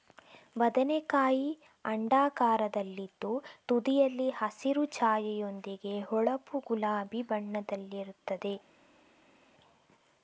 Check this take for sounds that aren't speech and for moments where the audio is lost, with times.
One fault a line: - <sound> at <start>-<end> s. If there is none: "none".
none